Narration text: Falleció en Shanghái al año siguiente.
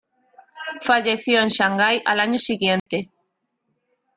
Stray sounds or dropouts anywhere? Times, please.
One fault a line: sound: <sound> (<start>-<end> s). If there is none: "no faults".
sound: dropout (2.8-2.9 s)